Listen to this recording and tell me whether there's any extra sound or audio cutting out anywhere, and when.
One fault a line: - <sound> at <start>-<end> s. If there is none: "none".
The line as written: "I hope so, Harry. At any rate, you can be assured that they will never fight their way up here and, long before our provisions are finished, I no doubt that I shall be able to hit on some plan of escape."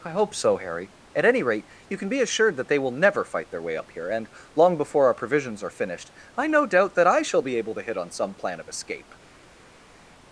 none